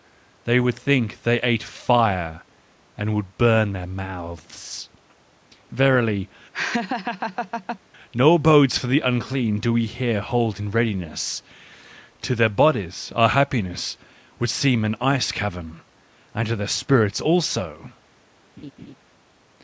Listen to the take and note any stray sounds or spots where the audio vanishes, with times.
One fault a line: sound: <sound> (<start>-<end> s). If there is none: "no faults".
sound: laugh (6.5-7.8 s)
sound: laugh (18.6-18.9 s)